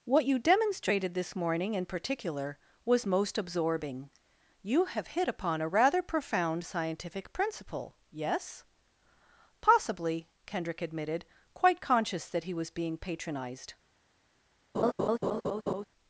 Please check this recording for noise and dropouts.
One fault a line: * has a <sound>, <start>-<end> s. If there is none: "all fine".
* has a laugh, 14.7-15.8 s